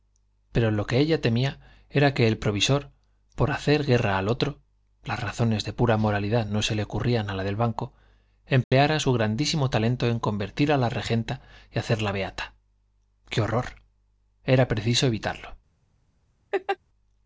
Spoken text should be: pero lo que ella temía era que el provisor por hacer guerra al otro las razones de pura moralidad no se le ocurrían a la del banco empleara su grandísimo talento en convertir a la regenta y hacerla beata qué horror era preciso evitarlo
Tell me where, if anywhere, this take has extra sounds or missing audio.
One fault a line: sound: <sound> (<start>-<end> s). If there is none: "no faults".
sound: dropout (8.6-8.7 s)
sound: laugh (16.5-16.8 s)